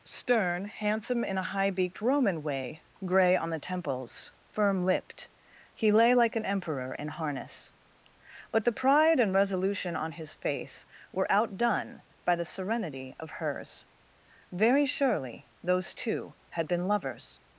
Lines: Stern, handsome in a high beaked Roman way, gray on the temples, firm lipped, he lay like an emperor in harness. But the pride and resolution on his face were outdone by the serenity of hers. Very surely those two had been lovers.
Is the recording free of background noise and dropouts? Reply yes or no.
yes